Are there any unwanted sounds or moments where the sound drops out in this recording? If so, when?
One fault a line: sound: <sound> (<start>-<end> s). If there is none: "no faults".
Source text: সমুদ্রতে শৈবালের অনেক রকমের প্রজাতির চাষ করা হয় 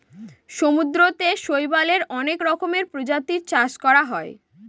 no faults